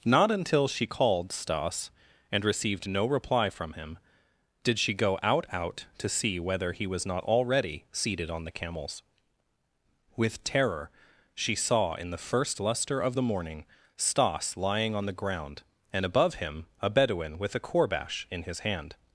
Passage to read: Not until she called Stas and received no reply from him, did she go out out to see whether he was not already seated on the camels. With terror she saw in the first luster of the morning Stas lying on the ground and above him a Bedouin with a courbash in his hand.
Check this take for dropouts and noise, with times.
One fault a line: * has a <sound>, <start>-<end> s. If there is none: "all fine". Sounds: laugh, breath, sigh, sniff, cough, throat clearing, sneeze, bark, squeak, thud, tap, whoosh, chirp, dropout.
all fine